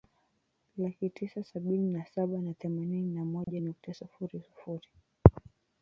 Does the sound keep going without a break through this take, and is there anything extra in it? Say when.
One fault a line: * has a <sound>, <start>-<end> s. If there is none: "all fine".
* has a dropout, 3.4-3.5 s